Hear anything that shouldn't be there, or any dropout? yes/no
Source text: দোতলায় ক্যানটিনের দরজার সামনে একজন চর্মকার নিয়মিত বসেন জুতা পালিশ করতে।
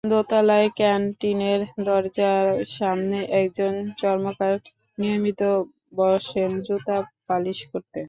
no